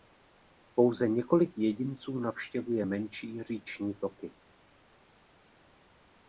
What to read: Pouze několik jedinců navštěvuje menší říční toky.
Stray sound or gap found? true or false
false